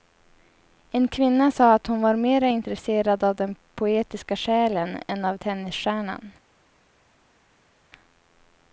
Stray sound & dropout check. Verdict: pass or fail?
pass